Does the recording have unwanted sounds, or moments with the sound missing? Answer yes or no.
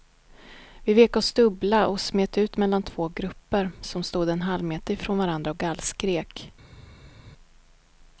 no